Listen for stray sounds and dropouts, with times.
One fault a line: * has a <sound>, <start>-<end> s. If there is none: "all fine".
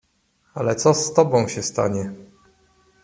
all fine